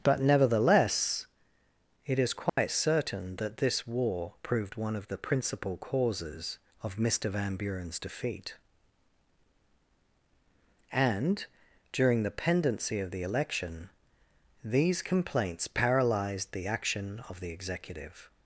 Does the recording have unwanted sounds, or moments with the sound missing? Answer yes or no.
yes